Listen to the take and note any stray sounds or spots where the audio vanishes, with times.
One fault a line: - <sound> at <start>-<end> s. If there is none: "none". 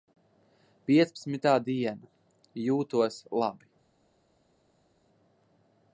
none